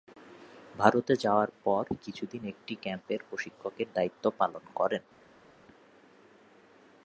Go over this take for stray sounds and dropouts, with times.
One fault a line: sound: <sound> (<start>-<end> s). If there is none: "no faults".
no faults